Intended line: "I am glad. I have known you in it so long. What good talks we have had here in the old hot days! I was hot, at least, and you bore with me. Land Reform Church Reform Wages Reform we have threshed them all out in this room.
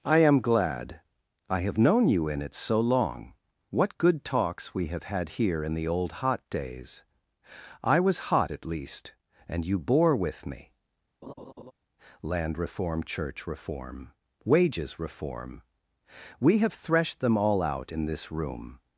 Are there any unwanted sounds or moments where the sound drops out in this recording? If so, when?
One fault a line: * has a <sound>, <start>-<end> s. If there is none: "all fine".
* has a laugh, 11.2-11.7 s